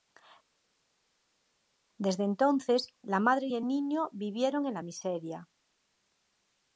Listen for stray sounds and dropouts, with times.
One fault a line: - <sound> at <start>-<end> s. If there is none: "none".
none